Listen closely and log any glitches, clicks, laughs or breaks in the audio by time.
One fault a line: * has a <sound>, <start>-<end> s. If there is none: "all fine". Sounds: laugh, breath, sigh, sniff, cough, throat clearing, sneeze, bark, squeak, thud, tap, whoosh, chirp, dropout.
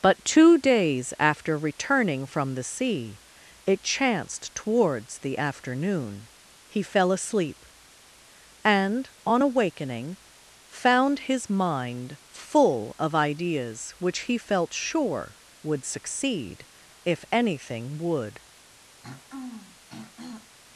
* has a throat clearing, 19.0-20.6 s